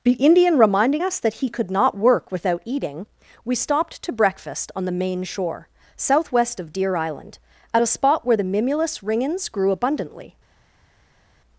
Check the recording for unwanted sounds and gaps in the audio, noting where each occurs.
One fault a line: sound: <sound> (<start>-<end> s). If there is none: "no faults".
no faults